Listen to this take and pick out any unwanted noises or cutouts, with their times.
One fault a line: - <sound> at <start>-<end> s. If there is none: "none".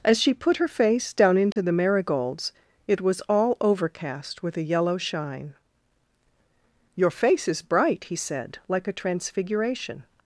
- dropout at 1.5-1.6 s